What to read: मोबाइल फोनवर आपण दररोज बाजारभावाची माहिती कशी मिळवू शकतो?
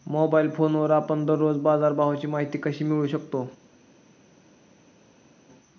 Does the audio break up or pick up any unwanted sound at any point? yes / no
no